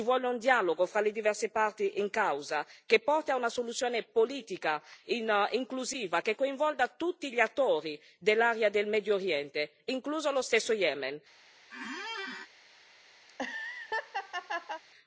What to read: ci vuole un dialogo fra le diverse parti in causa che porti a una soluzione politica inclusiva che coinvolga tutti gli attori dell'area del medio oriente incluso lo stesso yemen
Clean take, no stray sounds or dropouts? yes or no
no